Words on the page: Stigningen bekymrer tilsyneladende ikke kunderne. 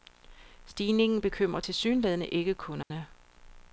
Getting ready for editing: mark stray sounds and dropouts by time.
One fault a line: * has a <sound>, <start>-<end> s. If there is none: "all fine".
* has a dropout, 2.8-2.9 s